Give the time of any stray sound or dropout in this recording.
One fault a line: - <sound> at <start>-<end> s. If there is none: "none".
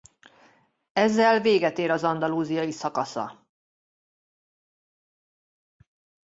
none